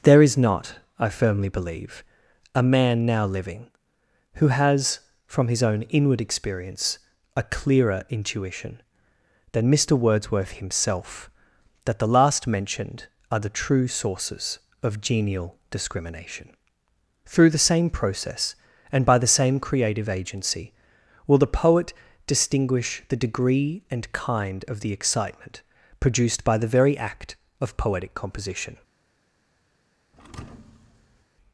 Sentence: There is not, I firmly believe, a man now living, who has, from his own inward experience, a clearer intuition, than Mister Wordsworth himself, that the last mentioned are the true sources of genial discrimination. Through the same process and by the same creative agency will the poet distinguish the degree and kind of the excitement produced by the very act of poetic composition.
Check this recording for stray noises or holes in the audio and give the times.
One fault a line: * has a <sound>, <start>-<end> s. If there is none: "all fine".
* has a thud, 30.1-31.3 s